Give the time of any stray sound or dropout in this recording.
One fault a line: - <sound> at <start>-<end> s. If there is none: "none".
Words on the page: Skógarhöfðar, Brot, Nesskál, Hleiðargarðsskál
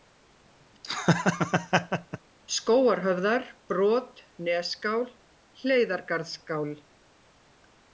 - laugh at 0.8-2.2 s